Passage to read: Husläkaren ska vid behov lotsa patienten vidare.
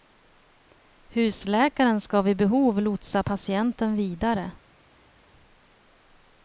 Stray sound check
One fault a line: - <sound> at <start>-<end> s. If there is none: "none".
none